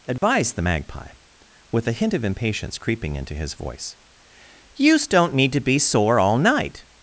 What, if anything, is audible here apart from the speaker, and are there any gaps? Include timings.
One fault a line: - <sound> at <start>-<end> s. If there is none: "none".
- dropout at 0.2-0.2 s